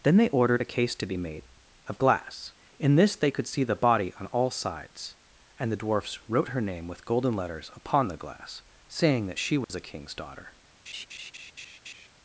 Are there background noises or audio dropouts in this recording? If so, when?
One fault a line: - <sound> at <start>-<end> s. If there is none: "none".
- dropout at 9.6-9.7 s
- laugh at 10.9-12.1 s